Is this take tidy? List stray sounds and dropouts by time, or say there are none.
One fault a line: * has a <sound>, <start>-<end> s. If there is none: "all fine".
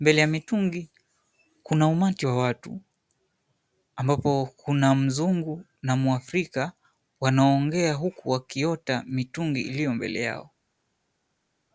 all fine